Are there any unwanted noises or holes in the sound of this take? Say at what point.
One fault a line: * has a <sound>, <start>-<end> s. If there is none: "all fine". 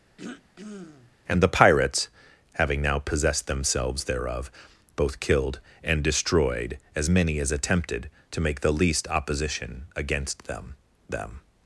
* has a throat clearing, 0.2-1.2 s